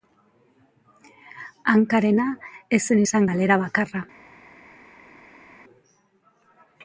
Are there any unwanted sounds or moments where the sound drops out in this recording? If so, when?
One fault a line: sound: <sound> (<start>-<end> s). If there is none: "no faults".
no faults